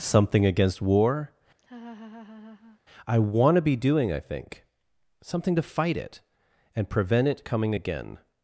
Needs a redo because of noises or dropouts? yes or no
yes